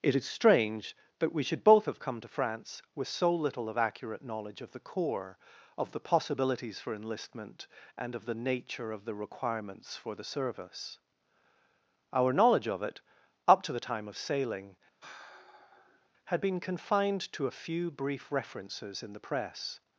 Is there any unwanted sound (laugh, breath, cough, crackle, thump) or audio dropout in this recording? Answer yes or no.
yes